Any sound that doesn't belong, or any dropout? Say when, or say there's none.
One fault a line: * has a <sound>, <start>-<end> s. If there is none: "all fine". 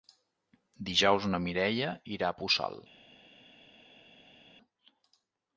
all fine